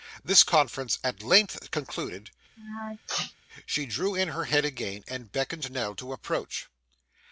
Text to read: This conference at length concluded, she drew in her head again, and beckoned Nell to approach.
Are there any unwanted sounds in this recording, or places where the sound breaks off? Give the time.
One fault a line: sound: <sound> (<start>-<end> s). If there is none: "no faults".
sound: sneeze (2.6-3.3 s)